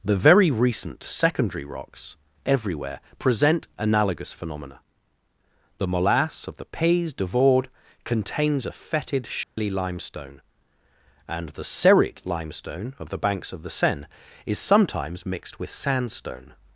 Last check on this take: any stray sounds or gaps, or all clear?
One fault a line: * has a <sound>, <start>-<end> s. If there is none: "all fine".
* has a dropout, 9.4-9.6 s